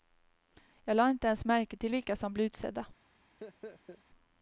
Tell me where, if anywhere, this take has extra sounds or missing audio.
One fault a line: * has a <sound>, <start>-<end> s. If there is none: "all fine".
* has a laugh, 3.4-4.0 s